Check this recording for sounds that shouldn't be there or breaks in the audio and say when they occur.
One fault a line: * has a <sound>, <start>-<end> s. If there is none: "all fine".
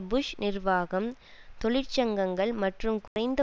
* has a dropout, 3.1-3.2 s